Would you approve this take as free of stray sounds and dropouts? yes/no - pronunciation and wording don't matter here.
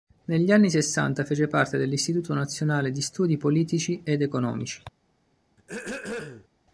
no